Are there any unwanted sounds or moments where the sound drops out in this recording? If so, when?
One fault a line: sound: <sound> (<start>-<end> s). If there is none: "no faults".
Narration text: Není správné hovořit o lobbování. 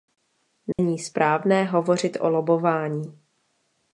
sound: dropout (0.7-0.8 s)